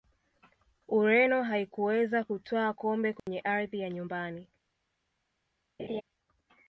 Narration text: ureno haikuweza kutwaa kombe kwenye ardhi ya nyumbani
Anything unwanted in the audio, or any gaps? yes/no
yes